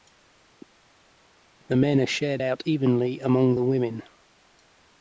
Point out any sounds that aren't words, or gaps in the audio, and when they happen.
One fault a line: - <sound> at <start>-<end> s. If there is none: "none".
none